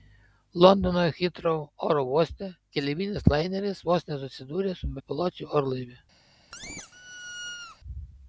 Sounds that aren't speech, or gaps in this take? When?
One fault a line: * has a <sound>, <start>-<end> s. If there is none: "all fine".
* has a squeak, 6.5-7.8 s